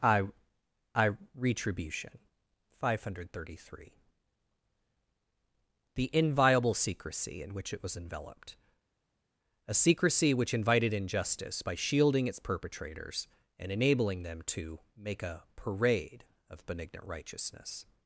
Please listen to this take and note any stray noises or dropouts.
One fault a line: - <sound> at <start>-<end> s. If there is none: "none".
none